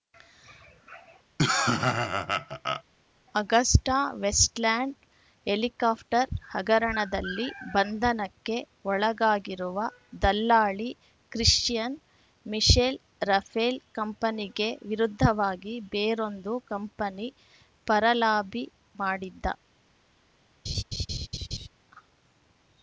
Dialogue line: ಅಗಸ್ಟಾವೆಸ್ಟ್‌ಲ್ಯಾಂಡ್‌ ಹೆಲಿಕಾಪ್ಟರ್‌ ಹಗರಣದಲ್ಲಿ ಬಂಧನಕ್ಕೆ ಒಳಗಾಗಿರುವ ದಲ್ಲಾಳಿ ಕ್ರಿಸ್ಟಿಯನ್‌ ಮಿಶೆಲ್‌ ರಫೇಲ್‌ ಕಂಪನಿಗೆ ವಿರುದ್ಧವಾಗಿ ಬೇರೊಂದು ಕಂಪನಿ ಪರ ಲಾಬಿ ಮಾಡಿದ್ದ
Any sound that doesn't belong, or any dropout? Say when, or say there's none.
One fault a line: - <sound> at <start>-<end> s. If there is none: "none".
- laugh at 1.4-2.8 s
- laugh at 20.7-21.7 s